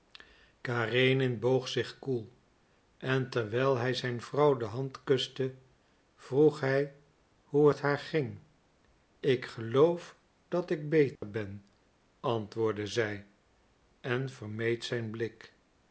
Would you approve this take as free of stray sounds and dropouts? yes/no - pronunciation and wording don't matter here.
no